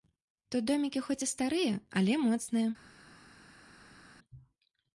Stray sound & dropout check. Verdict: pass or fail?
pass